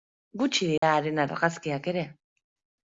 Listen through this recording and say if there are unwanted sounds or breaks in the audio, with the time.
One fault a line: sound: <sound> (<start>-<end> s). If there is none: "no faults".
sound: dropout (0.8-0.8 s)